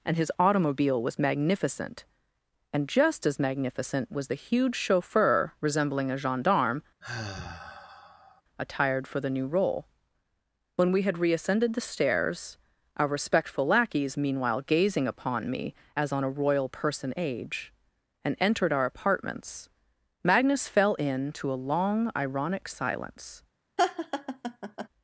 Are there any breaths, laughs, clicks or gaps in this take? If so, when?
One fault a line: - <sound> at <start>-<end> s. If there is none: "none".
- sigh at 7.0-8.4 s
- laugh at 23.8-24.9 s